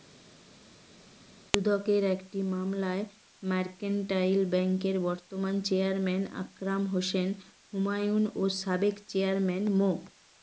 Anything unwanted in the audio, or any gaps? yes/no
no